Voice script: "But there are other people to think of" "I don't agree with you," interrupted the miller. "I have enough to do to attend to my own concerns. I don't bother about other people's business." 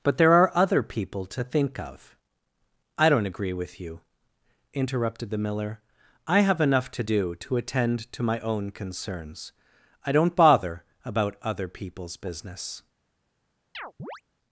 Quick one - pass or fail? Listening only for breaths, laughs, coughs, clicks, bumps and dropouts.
fail